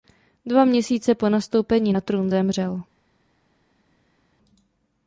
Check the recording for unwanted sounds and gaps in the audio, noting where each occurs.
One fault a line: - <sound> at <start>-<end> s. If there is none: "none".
none